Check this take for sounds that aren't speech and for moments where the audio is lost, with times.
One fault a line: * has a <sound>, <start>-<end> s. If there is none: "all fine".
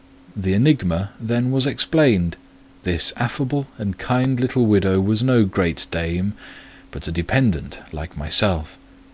all fine